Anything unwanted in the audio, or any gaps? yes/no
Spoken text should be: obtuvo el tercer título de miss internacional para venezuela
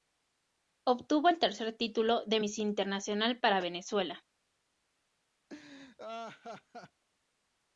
yes